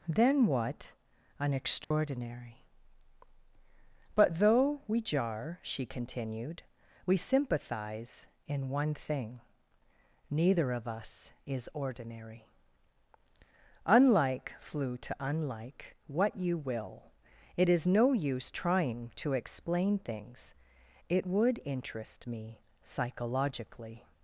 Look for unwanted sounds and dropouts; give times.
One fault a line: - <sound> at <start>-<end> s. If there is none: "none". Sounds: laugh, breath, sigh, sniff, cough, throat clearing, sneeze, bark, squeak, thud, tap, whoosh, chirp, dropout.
- dropout at 1.8-1.9 s